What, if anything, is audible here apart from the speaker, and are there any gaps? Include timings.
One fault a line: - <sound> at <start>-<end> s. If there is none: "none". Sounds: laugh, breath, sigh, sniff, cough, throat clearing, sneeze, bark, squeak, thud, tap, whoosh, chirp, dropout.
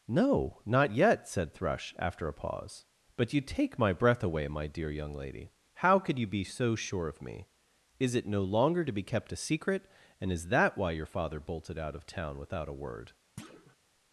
- thud at 13.4-13.8 s